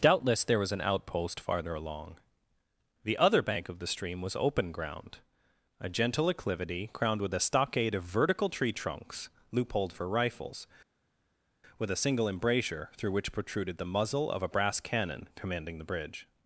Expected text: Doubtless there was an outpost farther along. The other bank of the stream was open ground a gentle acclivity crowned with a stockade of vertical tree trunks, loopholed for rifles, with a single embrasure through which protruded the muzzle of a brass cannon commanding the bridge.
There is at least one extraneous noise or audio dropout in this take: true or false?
false